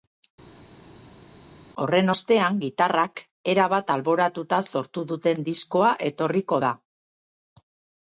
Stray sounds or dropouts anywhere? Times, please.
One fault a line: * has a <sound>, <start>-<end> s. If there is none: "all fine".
all fine